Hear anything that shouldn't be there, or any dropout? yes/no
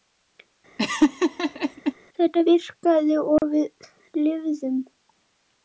yes